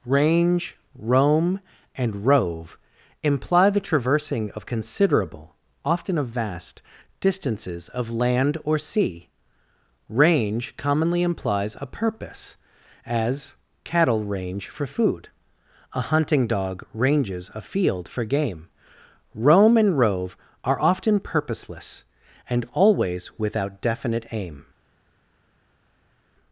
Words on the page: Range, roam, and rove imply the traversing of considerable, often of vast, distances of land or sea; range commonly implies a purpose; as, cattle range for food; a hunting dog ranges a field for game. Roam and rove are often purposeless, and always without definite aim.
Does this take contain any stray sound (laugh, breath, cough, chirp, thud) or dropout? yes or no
no